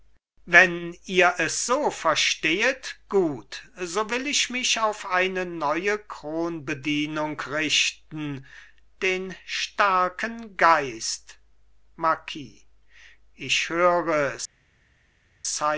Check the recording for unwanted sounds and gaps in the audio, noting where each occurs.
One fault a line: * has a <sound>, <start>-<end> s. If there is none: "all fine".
all fine